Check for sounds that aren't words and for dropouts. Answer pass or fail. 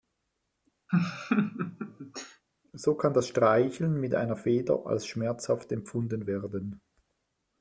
fail